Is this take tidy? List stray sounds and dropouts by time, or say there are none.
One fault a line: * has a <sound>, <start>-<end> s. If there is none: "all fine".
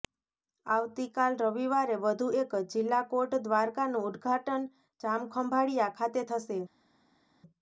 all fine